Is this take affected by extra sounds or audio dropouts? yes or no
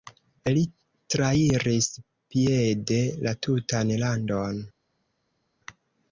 no